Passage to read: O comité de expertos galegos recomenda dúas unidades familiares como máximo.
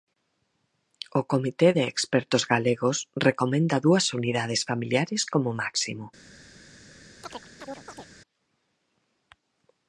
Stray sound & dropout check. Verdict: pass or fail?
fail